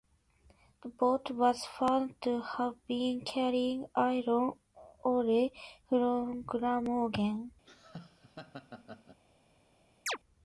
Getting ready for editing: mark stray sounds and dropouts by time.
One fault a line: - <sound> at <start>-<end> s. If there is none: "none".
- laugh at 7.6-9.2 s
- chirp at 10.1-10.2 s